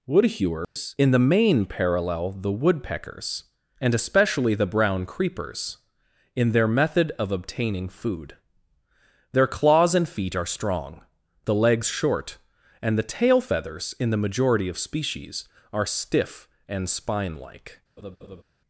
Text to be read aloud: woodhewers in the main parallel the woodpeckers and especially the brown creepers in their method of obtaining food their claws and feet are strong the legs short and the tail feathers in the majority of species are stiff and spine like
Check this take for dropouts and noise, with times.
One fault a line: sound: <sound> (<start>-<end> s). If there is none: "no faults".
sound: dropout (0.6-0.8 s)
sound: laugh (18.0-18.4 s)